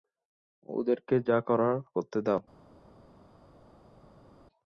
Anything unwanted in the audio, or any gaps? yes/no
no